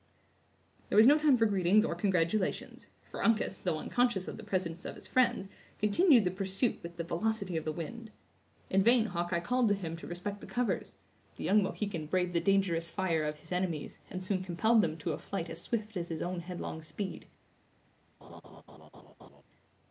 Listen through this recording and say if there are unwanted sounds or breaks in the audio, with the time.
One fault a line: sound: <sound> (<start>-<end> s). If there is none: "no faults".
sound: laugh (18.2-19.4 s)